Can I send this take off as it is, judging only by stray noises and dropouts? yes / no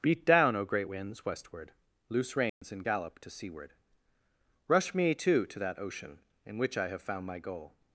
no